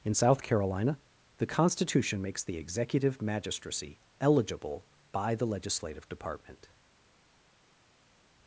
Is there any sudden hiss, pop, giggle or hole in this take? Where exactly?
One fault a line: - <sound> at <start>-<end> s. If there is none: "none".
none